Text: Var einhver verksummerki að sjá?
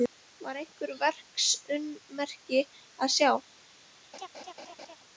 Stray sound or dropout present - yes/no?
yes